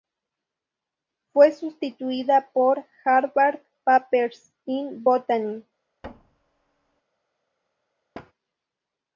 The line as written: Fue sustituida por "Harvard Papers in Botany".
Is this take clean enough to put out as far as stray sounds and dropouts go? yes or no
no